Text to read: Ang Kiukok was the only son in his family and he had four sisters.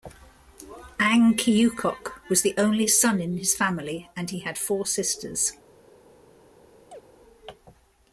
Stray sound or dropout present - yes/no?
yes